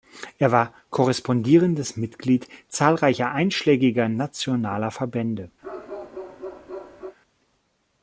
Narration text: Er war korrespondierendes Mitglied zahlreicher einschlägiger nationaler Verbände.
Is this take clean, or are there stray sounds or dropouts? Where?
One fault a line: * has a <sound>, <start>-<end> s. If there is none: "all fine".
* has a bark, 5.6-7.2 s